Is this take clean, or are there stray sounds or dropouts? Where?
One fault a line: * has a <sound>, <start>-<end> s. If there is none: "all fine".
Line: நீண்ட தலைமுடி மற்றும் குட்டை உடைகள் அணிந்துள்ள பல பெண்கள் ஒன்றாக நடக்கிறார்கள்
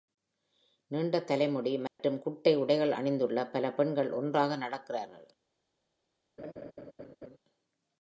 * has a dropout, 1.9-2.0 s
* has a laugh, 6.4-7.4 s